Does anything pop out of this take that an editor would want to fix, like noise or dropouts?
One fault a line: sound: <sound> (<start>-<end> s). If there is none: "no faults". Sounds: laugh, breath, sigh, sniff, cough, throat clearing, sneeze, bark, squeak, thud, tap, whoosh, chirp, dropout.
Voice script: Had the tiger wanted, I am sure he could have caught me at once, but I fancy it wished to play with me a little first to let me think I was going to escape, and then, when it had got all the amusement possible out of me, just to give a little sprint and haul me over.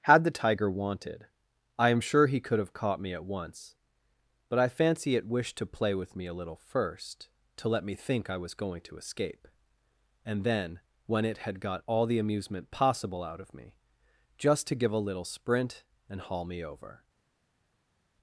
no faults